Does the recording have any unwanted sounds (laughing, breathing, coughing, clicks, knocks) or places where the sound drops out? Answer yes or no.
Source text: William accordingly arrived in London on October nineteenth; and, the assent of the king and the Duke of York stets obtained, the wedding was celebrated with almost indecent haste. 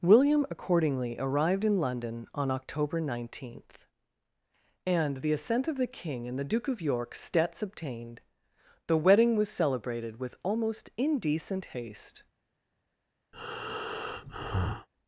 yes